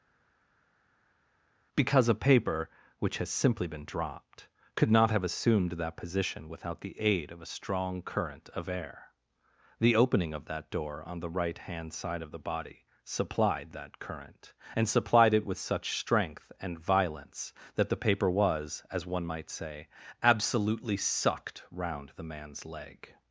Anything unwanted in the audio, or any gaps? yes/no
no